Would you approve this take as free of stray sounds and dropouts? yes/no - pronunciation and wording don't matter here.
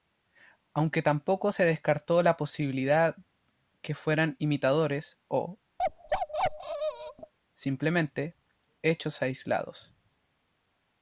no